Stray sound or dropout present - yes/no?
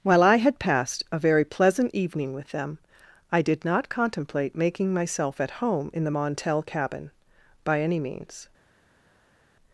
no